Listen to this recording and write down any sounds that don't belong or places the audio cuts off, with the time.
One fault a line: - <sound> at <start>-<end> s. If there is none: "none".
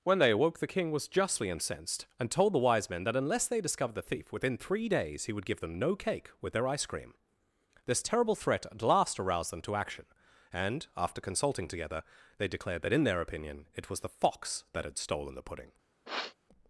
- sniff at 16.1-16.4 s